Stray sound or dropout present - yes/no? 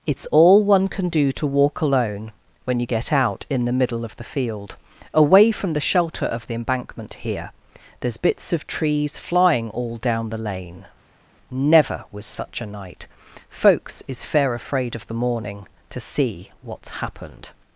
no